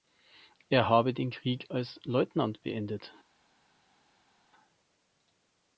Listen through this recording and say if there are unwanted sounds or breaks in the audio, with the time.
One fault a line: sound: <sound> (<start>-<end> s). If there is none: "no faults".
no faults